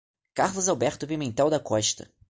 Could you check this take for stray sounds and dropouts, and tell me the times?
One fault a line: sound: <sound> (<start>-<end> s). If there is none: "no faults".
no faults